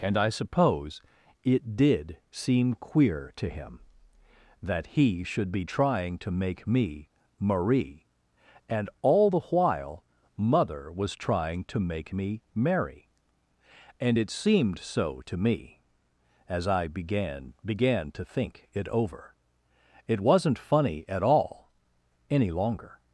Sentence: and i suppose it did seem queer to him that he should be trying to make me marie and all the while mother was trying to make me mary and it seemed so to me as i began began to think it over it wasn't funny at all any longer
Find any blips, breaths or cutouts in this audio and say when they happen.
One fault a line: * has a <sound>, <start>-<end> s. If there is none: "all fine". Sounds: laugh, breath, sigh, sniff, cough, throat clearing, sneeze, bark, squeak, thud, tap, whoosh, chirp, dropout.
all fine